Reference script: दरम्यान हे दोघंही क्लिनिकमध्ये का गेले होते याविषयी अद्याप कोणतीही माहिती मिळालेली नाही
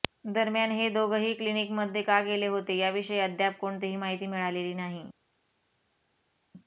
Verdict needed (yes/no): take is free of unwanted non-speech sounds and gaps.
yes